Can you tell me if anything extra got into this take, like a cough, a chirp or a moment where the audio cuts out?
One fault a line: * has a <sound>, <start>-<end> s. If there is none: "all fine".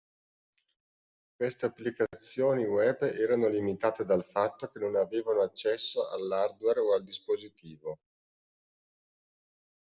all fine